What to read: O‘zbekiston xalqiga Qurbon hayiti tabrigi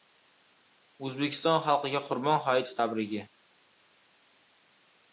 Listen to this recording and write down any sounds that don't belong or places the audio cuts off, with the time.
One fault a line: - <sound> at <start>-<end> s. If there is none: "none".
none